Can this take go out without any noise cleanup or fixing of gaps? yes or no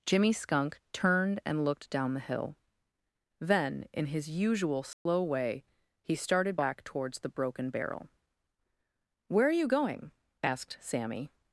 no